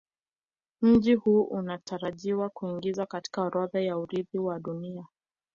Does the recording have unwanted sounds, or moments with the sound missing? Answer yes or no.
no